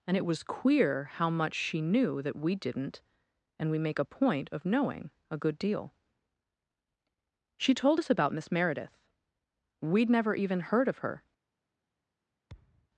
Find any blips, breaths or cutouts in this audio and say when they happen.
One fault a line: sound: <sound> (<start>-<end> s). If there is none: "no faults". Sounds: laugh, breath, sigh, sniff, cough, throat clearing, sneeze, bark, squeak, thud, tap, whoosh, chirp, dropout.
sound: thud (12.5-12.9 s)